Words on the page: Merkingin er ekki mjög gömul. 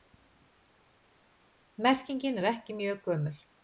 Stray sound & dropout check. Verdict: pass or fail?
pass